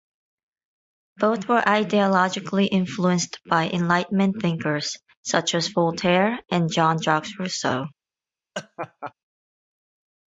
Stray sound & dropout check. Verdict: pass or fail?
fail